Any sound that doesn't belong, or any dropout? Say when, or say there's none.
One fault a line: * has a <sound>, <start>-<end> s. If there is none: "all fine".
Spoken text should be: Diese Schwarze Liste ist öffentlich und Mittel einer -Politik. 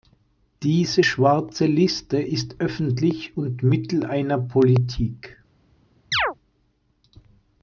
* has a chirp, 6.1-6.3 s